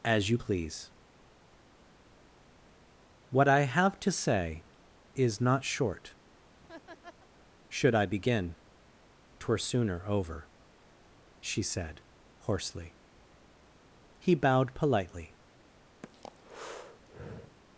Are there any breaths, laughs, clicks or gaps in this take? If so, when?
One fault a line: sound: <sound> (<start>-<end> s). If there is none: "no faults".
sound: laugh (6.6-7.3 s)
sound: breath (16.0-17.6 s)